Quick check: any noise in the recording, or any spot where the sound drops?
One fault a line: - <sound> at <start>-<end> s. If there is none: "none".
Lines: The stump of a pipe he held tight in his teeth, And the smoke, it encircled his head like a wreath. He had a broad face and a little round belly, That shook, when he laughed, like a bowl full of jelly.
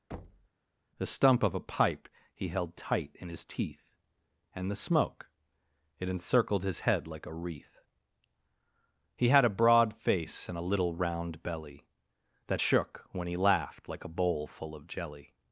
- thud at 0.1-0.5 s